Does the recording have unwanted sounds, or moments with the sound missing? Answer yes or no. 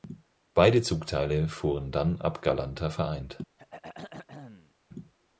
yes